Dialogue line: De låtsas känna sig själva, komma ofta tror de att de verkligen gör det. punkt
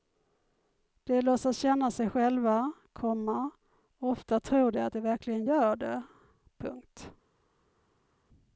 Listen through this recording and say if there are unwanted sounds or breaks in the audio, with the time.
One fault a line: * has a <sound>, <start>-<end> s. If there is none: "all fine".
all fine